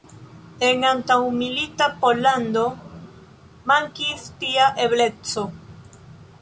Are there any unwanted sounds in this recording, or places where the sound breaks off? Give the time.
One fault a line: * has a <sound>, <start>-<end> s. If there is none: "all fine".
all fine